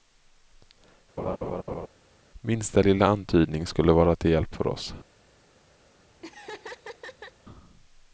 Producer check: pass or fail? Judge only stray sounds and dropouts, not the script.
fail